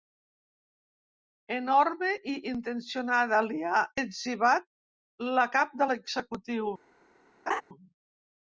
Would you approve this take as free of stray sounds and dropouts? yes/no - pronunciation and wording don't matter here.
no